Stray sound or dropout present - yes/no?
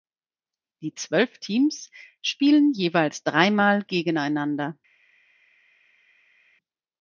no